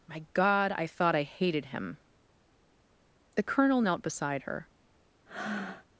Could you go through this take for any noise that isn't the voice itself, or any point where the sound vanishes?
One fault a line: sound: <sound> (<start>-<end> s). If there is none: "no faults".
sound: breath (5.3-5.9 s)